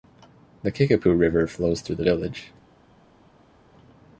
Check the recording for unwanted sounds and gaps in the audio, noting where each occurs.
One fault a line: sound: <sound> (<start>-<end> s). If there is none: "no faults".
no faults